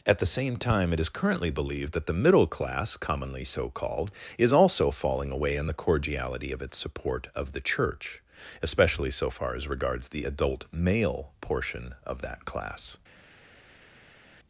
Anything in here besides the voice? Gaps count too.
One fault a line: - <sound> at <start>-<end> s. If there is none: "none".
none